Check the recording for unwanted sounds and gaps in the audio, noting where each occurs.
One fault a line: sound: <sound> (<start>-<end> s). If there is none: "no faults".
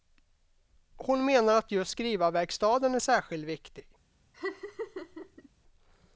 sound: laugh (4.3-5.5 s)